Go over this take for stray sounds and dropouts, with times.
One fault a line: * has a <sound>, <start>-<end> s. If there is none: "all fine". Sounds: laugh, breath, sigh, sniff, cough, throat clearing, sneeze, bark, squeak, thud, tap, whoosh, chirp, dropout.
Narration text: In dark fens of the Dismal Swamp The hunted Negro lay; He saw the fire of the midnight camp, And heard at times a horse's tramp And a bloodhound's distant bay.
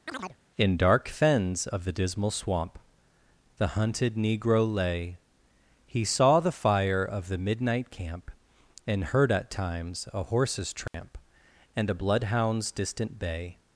* has a chirp, 0.1-0.4 s
* has a dropout, 10.9-10.9 s